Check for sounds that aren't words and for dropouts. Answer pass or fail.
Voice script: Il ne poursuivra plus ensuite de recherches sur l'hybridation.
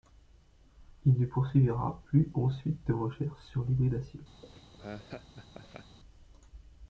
fail